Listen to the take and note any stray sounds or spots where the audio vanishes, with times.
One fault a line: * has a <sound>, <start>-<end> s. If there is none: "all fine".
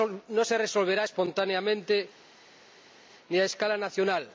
all fine